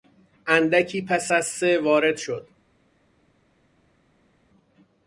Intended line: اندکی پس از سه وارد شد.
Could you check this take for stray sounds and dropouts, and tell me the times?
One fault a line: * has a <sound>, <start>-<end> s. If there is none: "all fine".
all fine